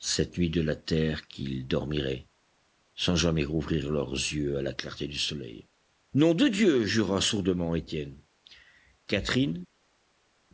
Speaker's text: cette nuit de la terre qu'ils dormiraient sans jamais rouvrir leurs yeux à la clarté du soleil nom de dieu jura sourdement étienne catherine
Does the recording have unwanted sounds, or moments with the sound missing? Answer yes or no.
no